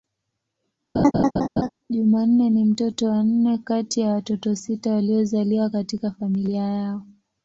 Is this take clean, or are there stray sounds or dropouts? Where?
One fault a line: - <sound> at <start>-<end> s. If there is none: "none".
- laugh at 0.9-1.7 s